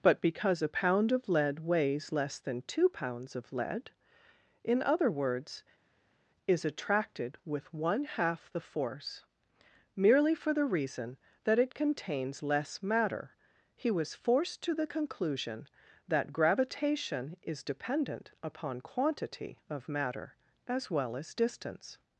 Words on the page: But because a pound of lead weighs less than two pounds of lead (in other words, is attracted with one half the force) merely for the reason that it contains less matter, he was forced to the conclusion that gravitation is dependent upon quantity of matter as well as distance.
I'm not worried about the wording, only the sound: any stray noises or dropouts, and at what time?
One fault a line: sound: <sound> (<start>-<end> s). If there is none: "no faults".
no faults